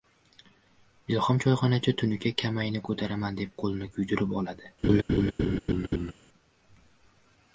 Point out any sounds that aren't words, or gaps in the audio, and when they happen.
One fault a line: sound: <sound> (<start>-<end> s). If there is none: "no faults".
sound: laugh (4.8-6.1 s)